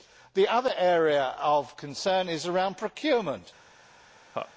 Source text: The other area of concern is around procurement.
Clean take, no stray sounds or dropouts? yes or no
no